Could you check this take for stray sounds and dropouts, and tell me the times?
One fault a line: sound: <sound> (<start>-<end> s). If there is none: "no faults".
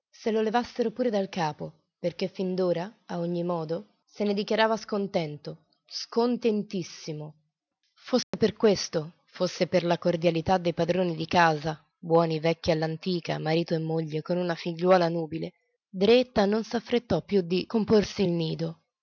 sound: dropout (8.2-8.3 s)